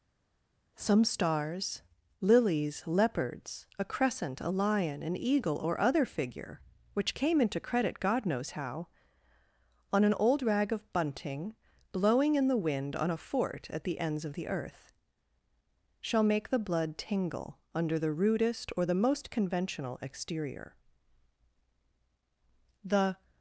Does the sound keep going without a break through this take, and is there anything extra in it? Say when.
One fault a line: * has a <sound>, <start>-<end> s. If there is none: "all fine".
all fine